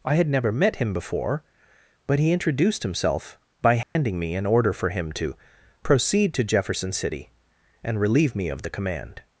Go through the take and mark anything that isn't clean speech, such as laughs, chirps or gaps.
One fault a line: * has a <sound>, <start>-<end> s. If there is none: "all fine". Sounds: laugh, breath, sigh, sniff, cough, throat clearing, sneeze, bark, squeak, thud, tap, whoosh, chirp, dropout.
* has a dropout, 3.8-4.0 s